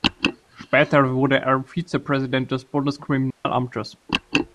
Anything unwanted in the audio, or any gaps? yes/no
yes